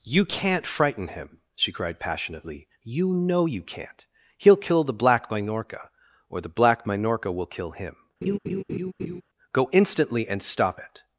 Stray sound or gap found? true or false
true